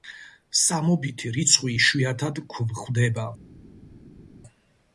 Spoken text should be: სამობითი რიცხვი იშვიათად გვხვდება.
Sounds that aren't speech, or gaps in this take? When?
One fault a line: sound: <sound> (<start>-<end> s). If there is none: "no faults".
no faults